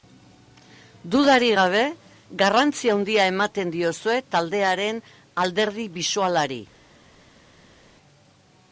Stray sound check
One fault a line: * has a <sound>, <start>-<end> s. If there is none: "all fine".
all fine